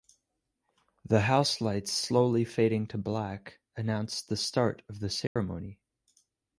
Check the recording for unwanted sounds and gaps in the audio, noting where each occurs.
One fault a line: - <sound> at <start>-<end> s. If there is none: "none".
- dropout at 5.3-5.4 s